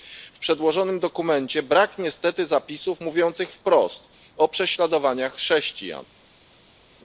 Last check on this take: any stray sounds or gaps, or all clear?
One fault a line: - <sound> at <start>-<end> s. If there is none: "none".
none